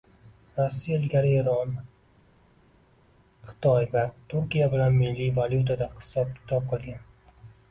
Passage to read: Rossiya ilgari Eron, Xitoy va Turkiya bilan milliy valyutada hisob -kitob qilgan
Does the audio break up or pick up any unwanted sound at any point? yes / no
no